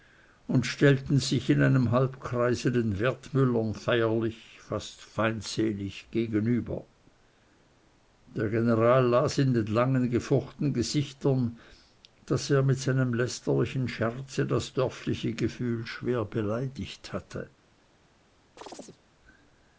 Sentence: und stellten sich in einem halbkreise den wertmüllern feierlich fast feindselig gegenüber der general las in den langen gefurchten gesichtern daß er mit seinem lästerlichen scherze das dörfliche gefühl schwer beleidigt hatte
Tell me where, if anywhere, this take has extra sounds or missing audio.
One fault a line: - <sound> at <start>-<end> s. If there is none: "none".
- chirp at 18.6-19.0 s